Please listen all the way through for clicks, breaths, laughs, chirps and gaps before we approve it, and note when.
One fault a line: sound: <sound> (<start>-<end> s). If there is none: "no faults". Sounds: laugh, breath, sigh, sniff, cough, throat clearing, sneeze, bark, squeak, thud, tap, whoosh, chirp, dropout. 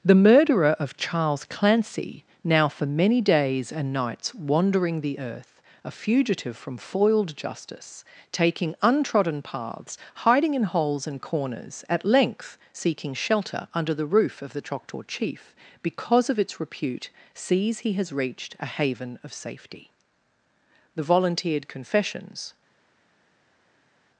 no faults